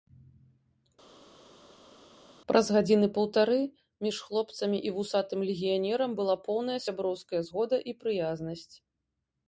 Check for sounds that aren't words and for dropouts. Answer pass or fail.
pass